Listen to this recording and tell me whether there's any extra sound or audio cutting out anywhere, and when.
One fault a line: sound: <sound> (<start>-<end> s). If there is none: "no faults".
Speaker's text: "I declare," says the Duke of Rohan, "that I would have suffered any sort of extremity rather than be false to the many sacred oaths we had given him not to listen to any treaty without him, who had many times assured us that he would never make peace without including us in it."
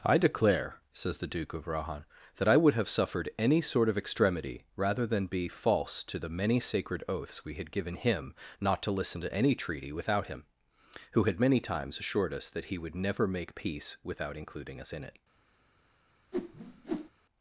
sound: whoosh (16.3-17.1 s)